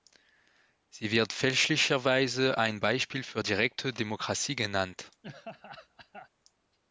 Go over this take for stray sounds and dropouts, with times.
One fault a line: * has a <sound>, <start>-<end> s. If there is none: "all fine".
* has a laugh, 5.2-6.3 s